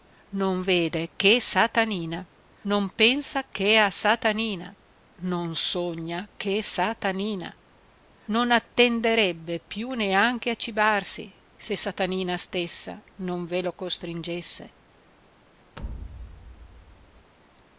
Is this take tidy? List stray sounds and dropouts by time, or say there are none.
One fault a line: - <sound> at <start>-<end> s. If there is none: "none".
- thud at 15.8-17.3 s